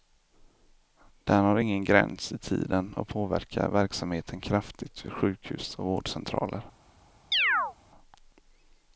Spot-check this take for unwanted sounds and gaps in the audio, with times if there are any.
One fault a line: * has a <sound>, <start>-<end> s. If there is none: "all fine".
* has a chirp, 7.3-7.7 s